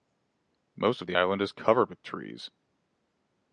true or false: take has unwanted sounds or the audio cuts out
false